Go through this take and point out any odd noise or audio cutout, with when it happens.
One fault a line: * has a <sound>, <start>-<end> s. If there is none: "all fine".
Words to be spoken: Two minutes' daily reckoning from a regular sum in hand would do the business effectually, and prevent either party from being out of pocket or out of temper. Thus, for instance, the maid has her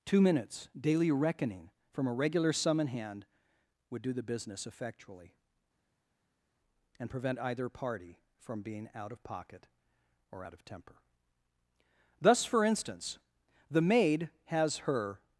all fine